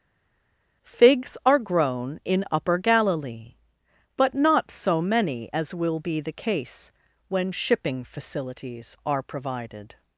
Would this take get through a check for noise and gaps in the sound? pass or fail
pass